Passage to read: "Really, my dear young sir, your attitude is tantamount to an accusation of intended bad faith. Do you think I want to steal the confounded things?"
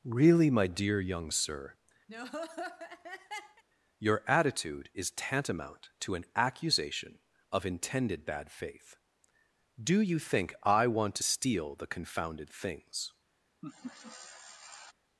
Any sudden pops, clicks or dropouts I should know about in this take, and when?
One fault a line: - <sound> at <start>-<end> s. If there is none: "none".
- laugh at 2.1-3.6 s
- laugh at 13.6-14.9 s